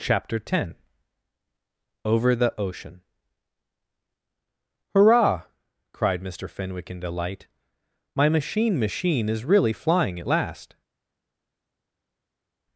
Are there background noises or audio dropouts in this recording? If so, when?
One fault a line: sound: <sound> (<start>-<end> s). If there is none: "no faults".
no faults